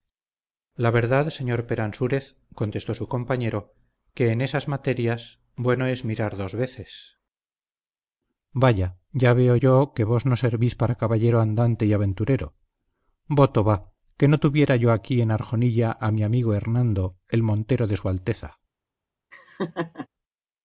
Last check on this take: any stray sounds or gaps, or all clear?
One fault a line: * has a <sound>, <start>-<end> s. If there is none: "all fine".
* has a laugh, 19.3-20.1 s